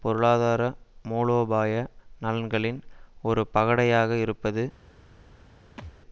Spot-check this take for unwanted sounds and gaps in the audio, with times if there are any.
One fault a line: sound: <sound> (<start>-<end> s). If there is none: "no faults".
sound: thud (5.8-5.9 s)